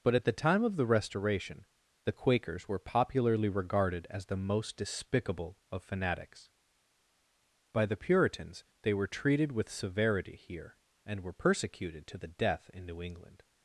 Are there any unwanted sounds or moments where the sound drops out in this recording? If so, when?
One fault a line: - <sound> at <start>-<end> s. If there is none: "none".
none